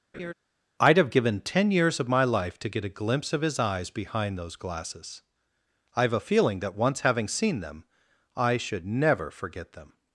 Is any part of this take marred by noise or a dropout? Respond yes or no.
yes